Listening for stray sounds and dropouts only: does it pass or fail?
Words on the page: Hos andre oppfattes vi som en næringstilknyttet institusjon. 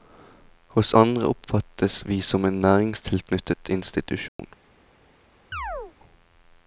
fail